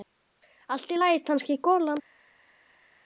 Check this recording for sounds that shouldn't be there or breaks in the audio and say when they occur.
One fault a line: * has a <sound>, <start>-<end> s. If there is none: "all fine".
all fine